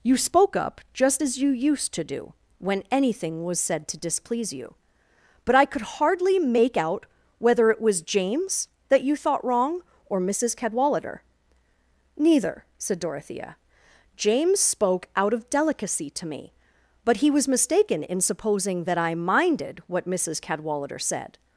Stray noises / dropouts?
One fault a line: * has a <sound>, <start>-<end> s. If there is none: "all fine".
all fine